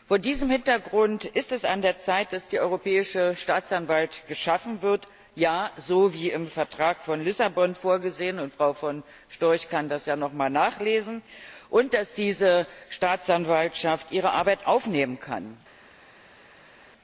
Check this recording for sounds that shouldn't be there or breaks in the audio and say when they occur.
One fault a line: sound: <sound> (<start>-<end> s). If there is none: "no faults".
no faults